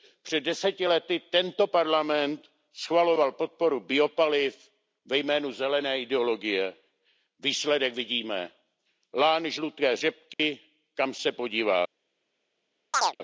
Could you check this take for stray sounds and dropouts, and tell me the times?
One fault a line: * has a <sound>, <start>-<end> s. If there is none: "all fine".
* has a dropout, 10.3-10.4 s
* has a chirp, 12.9-13.2 s